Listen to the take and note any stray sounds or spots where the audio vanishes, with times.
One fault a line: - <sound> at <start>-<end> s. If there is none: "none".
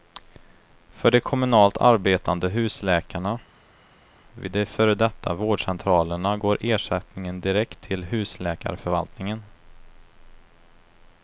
none